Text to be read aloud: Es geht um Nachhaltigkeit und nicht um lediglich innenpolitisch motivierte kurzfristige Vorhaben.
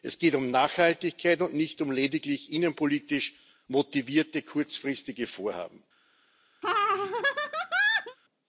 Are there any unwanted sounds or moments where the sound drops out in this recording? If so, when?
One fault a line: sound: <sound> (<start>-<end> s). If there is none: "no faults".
sound: laugh (6.6-8.2 s)